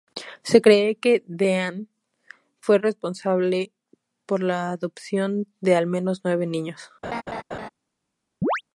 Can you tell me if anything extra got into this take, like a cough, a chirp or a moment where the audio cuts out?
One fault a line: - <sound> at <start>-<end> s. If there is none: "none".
- laugh at 7.0-7.7 s
- chirp at 8.4-8.6 s